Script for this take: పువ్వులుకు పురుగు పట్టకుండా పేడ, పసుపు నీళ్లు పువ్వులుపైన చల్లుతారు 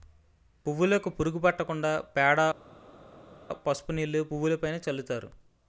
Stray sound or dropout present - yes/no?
no